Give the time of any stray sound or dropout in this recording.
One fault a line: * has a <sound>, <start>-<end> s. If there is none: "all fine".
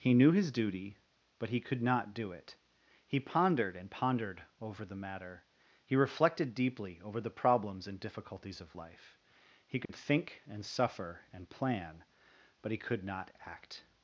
* has a dropout, 9.9-9.9 s